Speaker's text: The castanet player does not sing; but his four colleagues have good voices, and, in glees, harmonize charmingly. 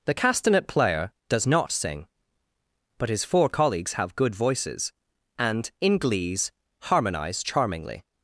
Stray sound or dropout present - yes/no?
no